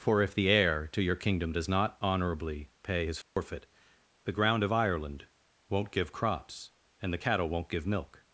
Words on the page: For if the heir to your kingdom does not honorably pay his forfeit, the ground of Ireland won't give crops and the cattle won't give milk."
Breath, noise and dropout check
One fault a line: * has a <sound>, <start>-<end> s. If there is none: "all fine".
* has a dropout, 3.2-3.4 s